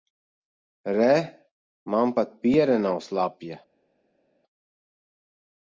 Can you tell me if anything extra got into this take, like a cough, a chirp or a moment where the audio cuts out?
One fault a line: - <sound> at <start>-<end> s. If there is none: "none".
none